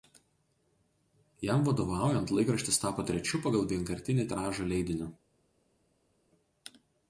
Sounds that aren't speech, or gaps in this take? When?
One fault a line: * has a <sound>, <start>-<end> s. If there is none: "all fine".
all fine